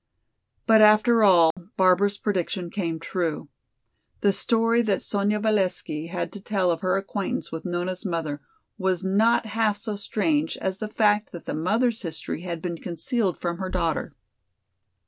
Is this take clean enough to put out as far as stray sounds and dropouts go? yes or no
no